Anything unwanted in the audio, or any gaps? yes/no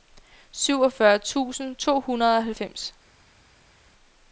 no